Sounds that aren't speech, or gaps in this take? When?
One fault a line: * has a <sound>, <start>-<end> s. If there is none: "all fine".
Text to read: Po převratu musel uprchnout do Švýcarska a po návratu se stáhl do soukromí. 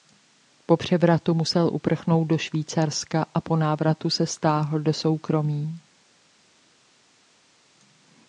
all fine